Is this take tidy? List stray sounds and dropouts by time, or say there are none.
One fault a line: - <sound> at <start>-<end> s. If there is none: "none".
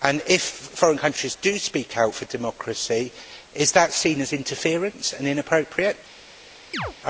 - chirp at 6.7-6.9 s